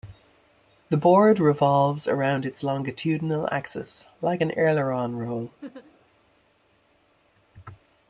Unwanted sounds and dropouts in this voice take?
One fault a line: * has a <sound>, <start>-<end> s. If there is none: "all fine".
* has a laugh, 5.6-6.0 s